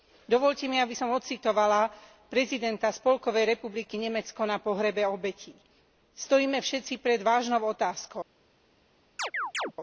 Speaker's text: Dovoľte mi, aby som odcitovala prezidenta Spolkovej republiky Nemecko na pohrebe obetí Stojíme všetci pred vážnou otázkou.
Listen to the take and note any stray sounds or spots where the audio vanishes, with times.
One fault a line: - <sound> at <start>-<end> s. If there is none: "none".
- chirp at 9.2-9.7 s